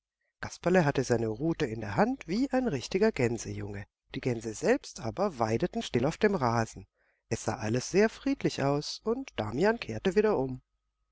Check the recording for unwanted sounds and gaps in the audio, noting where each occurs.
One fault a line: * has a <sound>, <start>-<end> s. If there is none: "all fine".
all fine